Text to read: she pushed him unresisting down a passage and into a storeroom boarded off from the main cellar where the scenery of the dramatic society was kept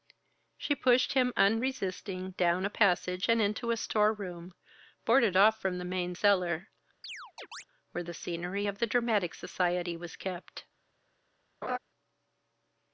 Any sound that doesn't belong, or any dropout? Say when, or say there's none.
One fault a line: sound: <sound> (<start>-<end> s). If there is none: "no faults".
sound: chirp (7.0-7.6 s)
sound: laugh (11.6-11.8 s)